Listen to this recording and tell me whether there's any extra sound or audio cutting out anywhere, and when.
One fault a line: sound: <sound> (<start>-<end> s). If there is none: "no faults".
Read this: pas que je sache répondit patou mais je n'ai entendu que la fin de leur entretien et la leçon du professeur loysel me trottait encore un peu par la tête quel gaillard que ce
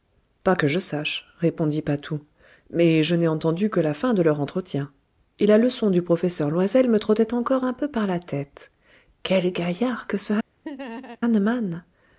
sound: laugh (10.6-11.2 s)